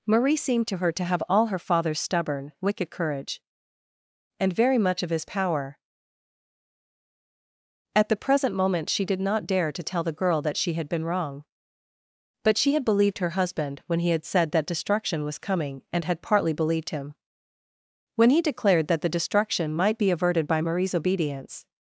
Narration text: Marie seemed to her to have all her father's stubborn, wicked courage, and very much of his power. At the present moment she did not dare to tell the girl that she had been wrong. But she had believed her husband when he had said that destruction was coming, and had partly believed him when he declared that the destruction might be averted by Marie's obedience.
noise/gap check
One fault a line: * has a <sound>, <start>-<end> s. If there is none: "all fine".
all fine